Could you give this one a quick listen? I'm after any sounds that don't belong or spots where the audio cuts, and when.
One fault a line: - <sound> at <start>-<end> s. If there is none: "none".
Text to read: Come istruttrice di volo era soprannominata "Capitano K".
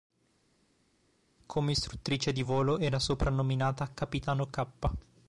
none